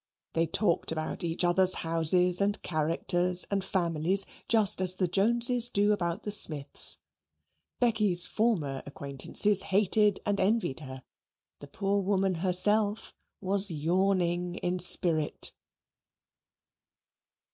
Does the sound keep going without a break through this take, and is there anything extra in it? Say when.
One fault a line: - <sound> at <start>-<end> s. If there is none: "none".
none